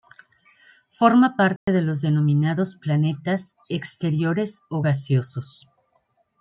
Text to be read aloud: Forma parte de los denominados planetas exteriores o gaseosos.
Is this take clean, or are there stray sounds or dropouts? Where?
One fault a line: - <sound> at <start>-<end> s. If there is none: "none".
- dropout at 1.6-1.7 s